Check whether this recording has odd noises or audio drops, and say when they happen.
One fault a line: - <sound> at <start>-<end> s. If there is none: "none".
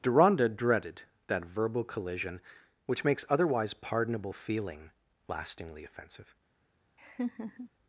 - laugh at 7.0-7.7 s